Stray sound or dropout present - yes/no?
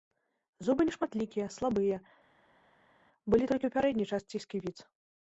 no